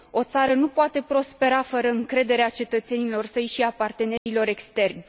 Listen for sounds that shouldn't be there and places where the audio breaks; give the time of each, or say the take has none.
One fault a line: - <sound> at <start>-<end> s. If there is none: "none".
- dropout at 4.2-4.3 s